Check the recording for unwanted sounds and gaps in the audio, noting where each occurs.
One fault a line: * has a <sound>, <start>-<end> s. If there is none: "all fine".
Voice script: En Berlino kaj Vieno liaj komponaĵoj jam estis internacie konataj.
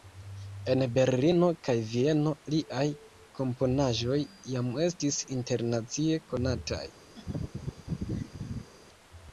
* has a laugh, 7.2-8.7 s